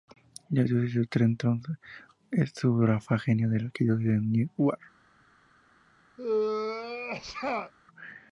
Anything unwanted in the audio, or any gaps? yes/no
yes